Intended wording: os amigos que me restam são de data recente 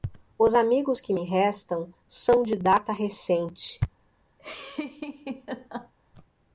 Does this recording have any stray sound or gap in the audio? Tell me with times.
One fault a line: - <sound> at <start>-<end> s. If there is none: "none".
- laugh at 4.4-5.9 s